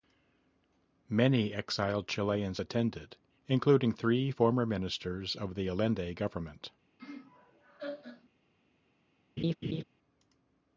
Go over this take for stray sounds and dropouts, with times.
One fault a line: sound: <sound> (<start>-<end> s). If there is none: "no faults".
sound: laugh (7.0-8.3 s)
sound: laugh (9.4-9.8 s)